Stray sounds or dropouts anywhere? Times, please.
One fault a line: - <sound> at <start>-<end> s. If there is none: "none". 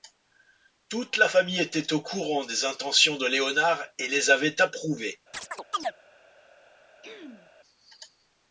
- chirp at 5.3-5.9 s
- throat clearing at 7.0-7.5 s